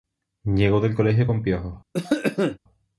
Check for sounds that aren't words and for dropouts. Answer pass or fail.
fail